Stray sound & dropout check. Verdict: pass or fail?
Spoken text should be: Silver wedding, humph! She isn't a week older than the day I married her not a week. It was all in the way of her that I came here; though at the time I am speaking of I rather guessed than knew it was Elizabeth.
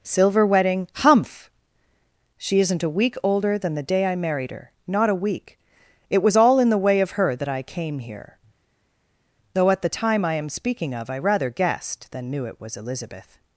pass